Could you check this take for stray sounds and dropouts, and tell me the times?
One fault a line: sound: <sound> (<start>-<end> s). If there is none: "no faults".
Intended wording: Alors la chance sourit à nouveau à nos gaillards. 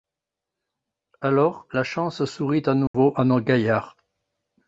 sound: dropout (2.9-2.9 s)